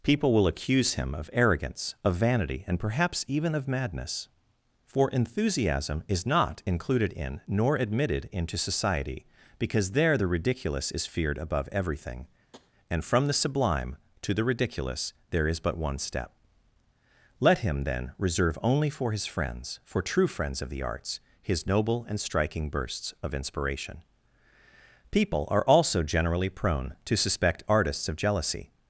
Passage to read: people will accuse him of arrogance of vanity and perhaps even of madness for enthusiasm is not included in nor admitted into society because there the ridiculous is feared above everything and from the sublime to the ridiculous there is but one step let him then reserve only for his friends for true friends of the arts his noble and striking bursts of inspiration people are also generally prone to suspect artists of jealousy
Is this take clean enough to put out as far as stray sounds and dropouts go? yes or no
no